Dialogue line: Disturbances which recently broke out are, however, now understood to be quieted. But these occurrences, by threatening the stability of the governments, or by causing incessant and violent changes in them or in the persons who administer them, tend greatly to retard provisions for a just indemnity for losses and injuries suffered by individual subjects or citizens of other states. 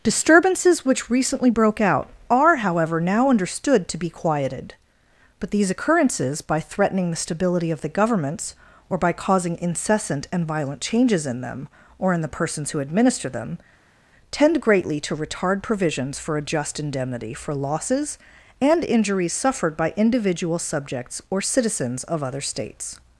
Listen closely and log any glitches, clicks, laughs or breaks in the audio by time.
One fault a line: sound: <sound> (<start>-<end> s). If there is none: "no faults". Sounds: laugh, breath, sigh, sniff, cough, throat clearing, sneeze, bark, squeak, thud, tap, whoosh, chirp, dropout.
no faults